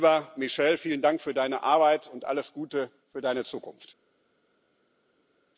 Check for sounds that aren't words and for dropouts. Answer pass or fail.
pass